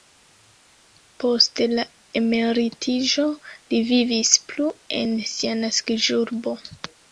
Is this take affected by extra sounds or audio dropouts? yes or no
no